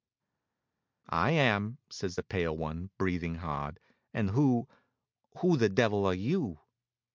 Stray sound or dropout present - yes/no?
no